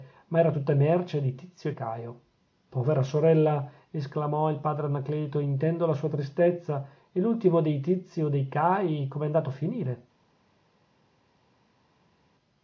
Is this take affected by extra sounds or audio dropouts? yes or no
no